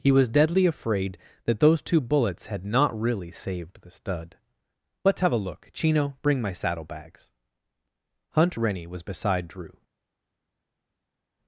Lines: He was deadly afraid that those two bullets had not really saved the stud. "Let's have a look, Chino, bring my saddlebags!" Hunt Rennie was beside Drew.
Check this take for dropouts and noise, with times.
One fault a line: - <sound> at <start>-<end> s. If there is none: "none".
none